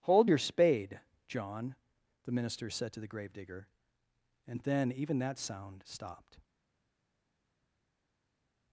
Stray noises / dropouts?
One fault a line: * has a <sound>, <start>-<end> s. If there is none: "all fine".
all fine